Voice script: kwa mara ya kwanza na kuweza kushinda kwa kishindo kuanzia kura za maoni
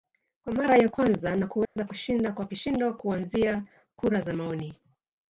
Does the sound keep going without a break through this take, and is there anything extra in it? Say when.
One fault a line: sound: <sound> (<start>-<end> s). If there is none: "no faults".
sound: dropout (1.6-1.8 s)